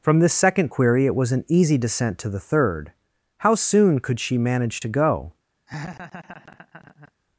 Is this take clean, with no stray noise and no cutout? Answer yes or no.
no